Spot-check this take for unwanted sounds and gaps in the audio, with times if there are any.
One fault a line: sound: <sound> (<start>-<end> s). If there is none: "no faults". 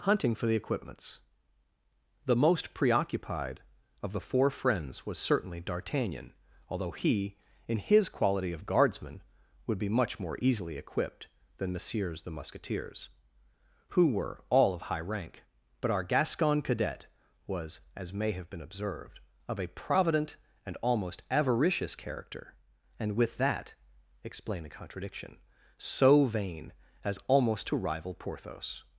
no faults